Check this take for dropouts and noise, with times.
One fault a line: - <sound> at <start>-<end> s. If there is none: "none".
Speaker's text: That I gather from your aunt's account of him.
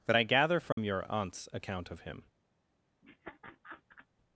- dropout at 0.7-0.8 s
- laugh at 3.0-4.1 s